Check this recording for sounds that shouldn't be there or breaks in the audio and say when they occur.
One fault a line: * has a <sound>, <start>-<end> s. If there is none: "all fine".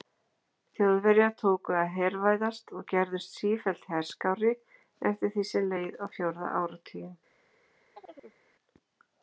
* has a chirp, 7.9-8.4 s